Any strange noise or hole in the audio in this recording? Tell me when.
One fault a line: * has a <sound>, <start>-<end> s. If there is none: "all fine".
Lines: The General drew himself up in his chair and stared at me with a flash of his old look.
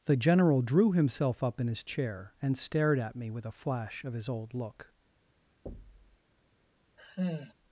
* has a thud, 5.7-6.2 s
* has a sigh, 7.0-7.5 s